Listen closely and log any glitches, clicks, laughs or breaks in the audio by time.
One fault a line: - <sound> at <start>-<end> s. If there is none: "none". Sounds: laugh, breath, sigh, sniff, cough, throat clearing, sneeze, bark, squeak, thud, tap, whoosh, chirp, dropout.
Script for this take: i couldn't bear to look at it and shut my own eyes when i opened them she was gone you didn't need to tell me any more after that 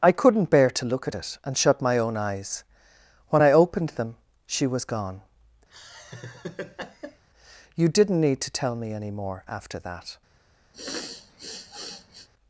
- laugh at 5.7-7.2 s
- sniff at 10.7-12.3 s